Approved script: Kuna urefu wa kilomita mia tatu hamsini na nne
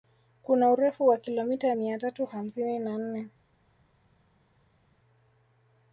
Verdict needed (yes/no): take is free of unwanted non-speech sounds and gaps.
yes